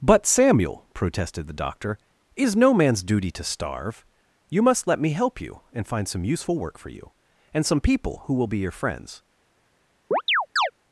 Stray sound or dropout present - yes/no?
yes